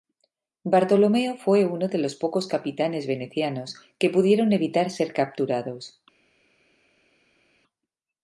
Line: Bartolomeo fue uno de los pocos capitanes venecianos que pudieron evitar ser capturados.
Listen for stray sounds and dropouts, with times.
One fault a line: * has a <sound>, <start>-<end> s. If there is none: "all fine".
all fine